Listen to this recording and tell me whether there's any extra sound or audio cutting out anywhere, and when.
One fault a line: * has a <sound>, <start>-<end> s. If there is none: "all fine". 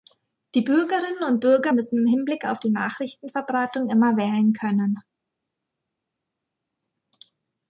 all fine